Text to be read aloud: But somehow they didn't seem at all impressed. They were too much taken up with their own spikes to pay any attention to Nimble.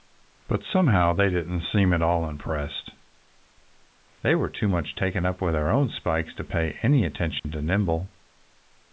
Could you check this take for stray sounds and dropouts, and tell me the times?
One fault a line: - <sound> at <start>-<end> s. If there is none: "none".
- dropout at 7.4-7.4 s